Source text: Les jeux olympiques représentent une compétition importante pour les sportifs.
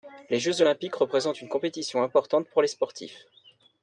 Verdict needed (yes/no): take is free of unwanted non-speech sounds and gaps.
yes